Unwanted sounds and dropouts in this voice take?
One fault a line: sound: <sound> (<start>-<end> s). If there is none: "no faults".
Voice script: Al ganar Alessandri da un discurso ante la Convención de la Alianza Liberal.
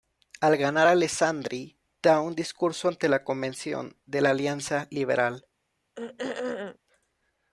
sound: throat clearing (6.0-6.8 s)